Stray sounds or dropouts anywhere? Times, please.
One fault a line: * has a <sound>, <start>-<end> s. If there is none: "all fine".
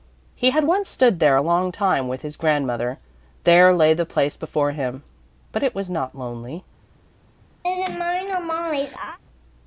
* has a laugh, 7.6-9.2 s